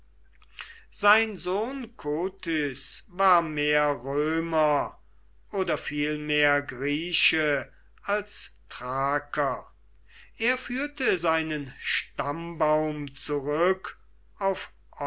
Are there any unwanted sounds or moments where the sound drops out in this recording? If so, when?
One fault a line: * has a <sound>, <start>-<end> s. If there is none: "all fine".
all fine